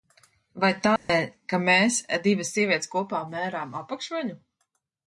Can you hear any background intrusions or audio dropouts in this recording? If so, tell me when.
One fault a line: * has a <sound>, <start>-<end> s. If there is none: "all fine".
* has a dropout, 1.0-1.1 s